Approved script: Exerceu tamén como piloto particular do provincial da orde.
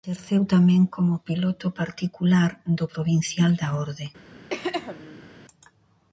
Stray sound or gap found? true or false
true